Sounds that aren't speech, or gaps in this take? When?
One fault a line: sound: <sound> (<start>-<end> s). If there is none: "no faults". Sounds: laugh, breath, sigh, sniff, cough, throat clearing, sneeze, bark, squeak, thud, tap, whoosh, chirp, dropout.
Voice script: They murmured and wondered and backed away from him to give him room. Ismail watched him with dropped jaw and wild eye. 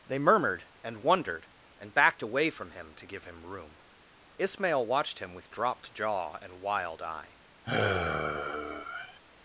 sound: sigh (7.6-9.2 s)